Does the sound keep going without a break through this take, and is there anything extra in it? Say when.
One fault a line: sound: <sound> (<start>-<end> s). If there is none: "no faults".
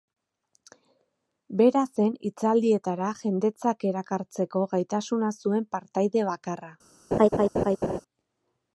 sound: laugh (7.1-8.0 s)